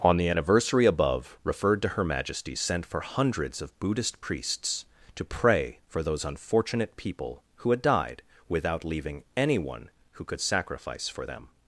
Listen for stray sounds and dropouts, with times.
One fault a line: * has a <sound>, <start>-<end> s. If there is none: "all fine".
all fine